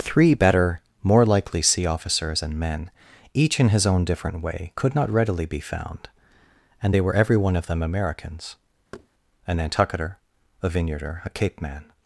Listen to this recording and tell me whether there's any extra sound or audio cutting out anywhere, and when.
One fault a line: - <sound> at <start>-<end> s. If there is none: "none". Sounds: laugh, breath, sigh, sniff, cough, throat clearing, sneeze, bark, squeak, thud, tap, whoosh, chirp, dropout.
- thud at 8.9-9.1 s